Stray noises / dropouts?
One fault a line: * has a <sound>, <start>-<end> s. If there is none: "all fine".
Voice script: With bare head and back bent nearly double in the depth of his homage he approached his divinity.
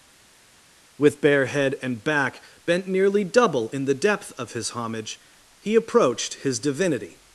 all fine